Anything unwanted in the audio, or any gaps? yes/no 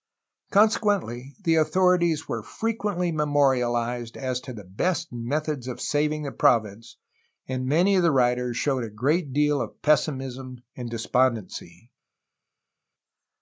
no